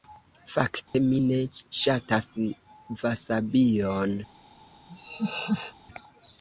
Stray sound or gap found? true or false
true